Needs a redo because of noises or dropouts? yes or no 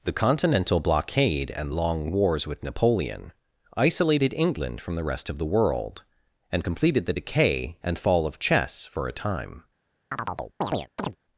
yes